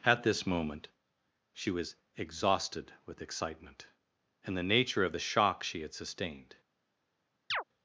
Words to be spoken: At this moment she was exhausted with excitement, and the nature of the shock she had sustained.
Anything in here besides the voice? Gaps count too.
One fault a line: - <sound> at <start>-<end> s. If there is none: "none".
- chirp at 7.5-7.6 s